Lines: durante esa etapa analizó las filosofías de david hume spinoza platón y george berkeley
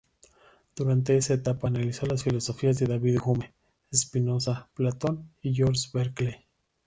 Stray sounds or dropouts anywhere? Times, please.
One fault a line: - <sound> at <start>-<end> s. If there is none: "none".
none